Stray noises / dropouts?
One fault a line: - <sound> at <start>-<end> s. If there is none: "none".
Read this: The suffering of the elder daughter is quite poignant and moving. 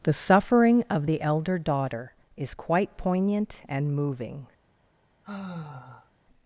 - sigh at 5.2-6.1 s